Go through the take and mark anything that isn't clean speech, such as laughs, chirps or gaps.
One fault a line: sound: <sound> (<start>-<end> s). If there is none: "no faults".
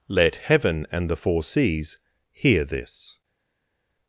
no faults